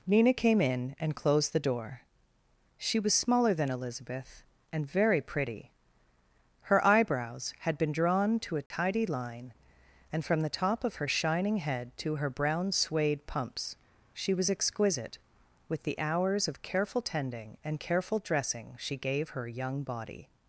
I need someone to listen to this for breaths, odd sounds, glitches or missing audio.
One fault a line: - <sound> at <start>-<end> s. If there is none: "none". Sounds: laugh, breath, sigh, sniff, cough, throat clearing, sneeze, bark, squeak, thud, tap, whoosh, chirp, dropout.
- dropout at 8.7-8.7 s